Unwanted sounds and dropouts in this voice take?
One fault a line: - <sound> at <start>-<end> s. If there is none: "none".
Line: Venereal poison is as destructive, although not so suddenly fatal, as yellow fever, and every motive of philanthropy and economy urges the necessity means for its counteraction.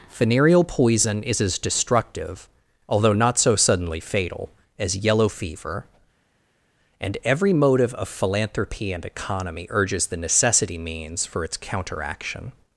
none